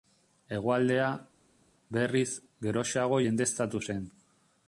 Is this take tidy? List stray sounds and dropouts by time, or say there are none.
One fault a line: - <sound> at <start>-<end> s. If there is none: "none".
none